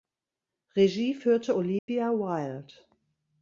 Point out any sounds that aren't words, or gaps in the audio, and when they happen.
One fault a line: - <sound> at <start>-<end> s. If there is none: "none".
- dropout at 1.8-1.9 s